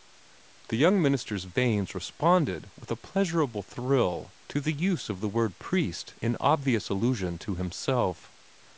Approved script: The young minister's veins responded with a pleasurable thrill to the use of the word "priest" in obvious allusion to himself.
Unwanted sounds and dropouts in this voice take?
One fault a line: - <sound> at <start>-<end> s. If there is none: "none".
none